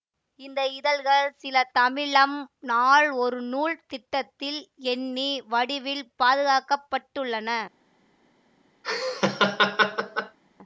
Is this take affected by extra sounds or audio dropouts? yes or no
yes